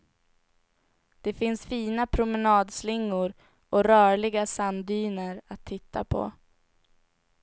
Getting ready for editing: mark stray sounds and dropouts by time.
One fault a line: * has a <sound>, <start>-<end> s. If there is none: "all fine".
all fine